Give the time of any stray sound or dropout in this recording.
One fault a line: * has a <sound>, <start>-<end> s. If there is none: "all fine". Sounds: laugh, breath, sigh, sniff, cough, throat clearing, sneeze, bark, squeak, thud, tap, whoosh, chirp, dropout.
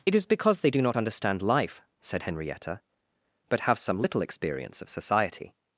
all fine